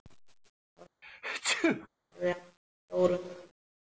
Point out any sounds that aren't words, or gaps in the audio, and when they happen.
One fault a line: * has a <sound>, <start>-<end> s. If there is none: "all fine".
* has a sneeze, 1.0-1.9 s